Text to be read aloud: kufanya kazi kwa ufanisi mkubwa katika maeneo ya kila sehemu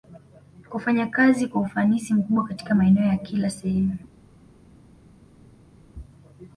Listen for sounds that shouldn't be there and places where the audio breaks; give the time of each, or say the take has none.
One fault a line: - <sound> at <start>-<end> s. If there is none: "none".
none